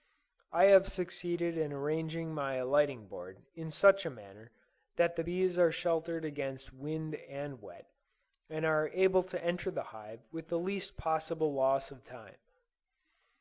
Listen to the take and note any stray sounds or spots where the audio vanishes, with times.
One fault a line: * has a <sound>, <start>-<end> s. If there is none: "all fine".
all fine